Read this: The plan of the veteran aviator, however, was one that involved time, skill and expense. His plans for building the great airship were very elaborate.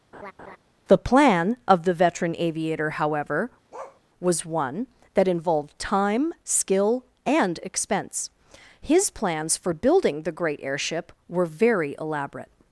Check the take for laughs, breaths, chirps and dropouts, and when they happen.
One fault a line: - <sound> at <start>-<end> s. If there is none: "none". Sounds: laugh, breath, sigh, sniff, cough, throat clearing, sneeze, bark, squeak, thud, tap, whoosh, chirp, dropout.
- laugh at 0.1-0.6 s
- bark at 3.7-4.0 s